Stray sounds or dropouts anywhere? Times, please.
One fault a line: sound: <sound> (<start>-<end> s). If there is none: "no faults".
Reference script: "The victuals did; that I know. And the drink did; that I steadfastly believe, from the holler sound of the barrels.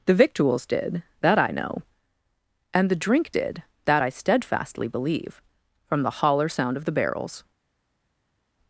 no faults